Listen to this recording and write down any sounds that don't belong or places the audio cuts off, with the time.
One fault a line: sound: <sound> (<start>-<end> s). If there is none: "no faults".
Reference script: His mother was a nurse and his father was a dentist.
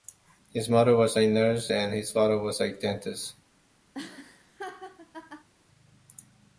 sound: laugh (3.9-5.5 s)